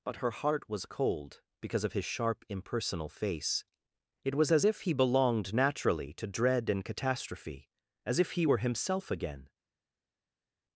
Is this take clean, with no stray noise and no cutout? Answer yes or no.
yes